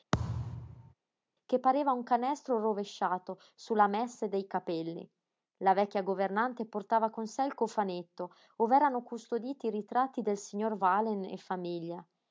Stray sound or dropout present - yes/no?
yes